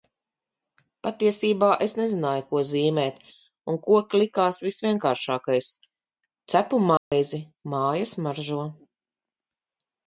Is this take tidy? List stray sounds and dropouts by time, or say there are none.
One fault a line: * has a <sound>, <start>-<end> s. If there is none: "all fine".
* has a dropout, 7.0-7.1 s